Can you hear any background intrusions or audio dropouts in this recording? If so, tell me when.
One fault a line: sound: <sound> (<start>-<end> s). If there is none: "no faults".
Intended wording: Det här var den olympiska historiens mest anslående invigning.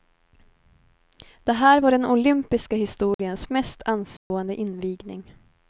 sound: dropout (3.1-3.2 s)
sound: dropout (4.2-4.3 s)